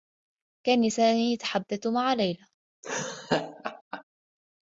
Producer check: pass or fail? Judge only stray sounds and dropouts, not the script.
fail